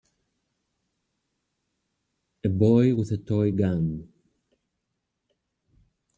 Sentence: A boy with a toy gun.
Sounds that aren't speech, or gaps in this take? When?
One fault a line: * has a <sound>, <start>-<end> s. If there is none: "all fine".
all fine